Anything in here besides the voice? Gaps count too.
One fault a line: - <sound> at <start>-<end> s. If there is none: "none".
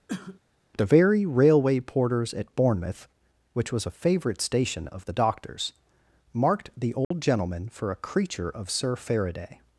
- cough at 0.1-0.4 s
- dropout at 7.0-7.1 s